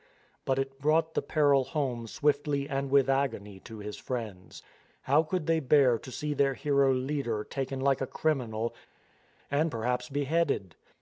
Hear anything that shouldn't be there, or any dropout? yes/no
no